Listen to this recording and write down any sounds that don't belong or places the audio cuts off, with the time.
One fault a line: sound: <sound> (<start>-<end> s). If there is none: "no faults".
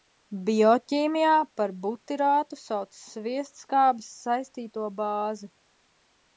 no faults